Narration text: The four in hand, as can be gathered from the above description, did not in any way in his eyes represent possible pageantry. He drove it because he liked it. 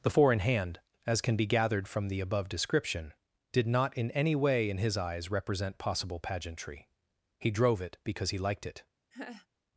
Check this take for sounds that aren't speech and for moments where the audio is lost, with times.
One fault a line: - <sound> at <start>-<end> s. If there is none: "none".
- laugh at 9.1-9.5 s